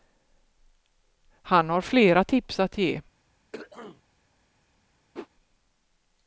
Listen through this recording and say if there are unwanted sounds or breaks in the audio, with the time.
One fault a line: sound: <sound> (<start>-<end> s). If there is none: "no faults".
sound: throat clearing (3.5-4.0 s)
sound: whoosh (5.1-5.3 s)